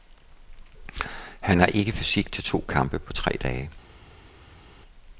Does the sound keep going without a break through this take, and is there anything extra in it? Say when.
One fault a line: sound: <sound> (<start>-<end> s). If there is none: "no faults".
no faults